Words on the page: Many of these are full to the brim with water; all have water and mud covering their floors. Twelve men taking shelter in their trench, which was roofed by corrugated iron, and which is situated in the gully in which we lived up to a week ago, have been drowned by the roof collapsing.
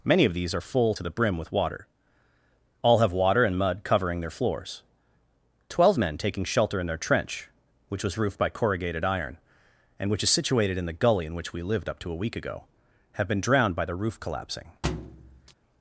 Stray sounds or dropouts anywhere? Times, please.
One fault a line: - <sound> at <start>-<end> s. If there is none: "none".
- thud at 14.8-15.5 s